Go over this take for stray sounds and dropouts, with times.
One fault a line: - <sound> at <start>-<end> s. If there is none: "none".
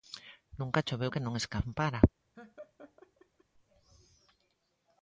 - laugh at 2.3-3.4 s